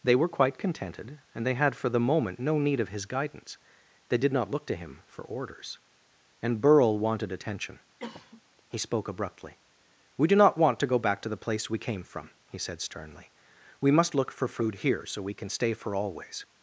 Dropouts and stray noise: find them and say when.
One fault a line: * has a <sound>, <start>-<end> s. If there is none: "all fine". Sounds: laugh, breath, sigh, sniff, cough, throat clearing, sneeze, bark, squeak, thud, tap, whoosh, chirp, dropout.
* has a cough, 8.0-8.4 s